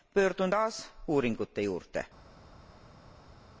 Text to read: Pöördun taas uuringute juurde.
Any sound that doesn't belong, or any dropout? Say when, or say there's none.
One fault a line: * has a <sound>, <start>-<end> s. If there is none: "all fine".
all fine